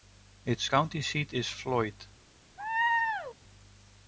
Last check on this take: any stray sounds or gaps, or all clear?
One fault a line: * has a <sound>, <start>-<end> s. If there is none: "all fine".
* has a laugh, 2.6-3.4 s